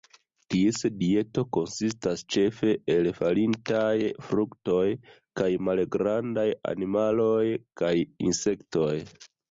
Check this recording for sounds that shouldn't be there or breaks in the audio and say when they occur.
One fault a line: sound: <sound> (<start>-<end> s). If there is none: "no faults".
no faults